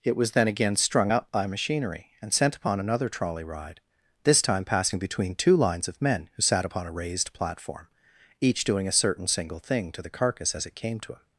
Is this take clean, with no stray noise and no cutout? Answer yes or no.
yes